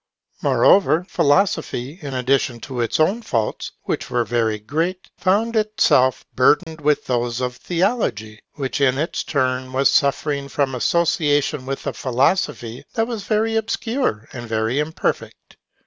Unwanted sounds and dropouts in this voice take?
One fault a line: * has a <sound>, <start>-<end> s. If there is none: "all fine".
* has a dropout, 6.6-6.7 s